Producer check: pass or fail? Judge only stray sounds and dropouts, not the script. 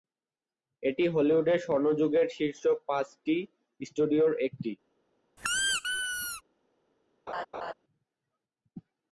fail